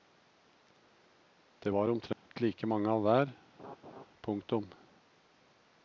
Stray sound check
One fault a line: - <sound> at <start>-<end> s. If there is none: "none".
- dropout at 2.1-2.3 s
- laugh at 3.6-4.1 s